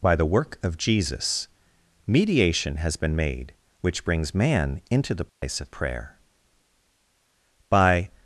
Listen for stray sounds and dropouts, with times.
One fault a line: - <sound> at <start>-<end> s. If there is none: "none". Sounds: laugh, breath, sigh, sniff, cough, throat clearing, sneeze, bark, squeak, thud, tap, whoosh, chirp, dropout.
- dropout at 5.3-5.4 s